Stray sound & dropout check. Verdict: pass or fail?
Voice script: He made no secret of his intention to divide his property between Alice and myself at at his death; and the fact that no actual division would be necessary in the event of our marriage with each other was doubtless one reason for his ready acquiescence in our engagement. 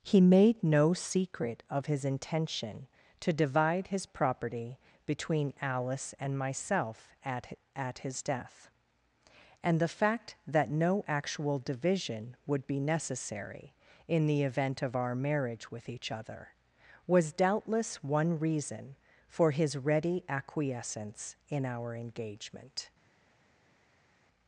pass